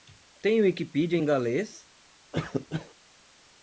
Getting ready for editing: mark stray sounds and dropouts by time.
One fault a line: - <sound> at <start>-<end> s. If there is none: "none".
- cough at 2.3-2.9 s